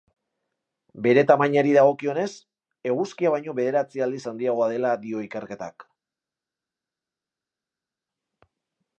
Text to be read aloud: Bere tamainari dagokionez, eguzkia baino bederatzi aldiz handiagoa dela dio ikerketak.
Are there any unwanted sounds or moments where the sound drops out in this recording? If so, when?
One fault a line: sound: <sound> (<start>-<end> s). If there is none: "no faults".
no faults